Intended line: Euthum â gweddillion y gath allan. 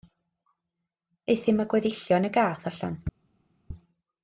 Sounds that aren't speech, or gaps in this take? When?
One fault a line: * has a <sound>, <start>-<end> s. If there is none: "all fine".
all fine